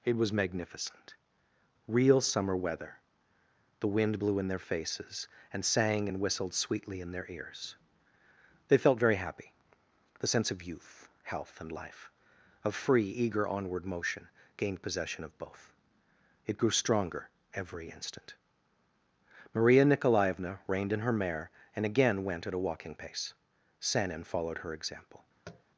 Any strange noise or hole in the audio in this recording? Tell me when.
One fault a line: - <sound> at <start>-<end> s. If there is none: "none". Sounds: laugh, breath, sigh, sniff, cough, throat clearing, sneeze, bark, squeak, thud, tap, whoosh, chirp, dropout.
- tap at 25.4-25.6 s